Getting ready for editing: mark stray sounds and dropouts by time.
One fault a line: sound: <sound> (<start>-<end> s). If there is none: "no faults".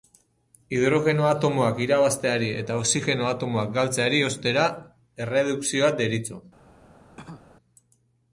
sound: cough (7.2-7.6 s)